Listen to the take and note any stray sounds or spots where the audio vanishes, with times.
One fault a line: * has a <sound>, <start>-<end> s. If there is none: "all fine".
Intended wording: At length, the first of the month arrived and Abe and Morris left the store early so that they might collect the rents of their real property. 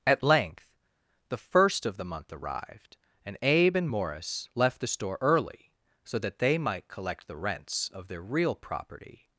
all fine